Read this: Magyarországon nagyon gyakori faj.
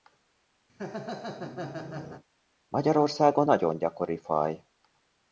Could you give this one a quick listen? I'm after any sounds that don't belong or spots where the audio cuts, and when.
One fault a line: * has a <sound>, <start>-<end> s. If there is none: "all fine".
* has a laugh, 0.7-2.2 s